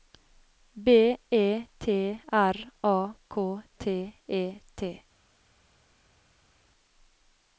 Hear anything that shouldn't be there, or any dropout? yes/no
no